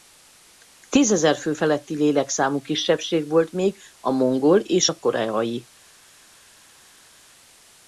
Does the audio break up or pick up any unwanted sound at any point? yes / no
no